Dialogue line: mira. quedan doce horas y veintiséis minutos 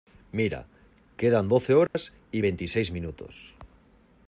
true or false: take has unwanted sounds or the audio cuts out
true